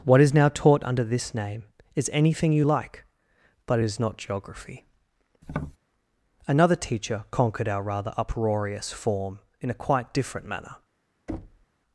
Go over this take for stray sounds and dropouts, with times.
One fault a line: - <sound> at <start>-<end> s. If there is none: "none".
- tap at 5.4-5.8 s
- thud at 11.3-11.7 s